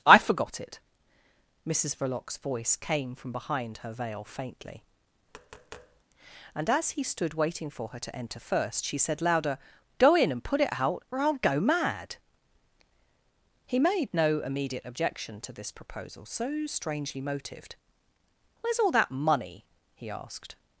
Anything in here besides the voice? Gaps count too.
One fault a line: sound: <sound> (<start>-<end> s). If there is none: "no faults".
sound: tap (5.3-6.0 s)